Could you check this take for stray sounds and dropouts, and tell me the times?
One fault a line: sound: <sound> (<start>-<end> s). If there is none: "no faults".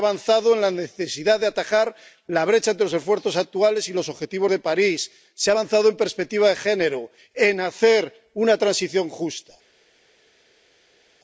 no faults